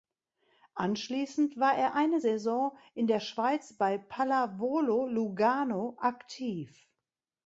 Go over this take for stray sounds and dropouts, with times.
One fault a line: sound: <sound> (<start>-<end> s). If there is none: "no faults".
no faults